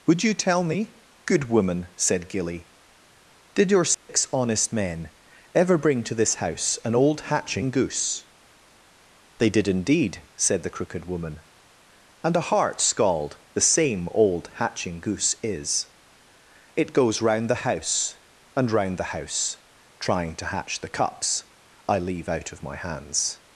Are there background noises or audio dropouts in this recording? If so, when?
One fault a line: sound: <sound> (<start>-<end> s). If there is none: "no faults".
sound: dropout (3.9-4.1 s)